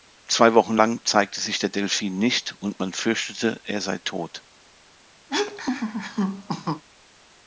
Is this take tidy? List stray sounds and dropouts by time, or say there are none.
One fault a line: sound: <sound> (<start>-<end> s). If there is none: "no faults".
sound: laugh (5.3-6.8 s)